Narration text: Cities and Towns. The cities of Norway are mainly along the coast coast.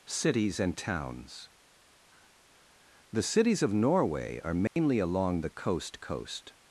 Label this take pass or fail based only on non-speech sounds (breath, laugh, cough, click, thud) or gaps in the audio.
fail